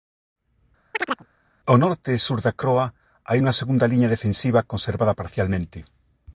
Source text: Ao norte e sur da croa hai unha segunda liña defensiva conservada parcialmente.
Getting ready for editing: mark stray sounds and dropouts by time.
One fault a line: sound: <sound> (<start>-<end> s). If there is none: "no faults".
sound: chirp (0.9-1.3 s)